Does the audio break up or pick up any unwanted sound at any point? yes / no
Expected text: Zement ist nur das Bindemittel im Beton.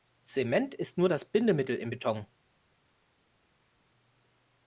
no